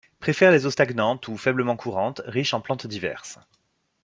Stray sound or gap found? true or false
false